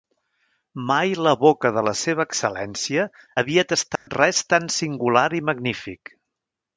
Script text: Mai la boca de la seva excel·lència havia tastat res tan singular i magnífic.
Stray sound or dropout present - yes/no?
yes